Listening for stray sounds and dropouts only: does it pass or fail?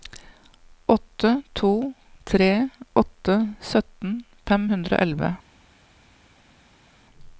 pass